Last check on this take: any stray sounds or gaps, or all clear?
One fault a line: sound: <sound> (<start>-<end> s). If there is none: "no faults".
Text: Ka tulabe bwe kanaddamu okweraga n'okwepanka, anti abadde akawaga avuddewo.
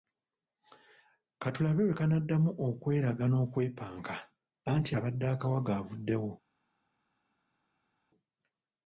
no faults